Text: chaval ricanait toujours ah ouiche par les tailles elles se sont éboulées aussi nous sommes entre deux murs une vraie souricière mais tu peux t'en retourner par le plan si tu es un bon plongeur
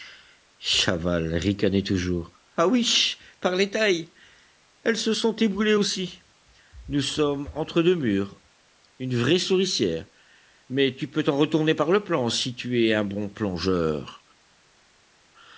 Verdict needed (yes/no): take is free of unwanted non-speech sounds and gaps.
yes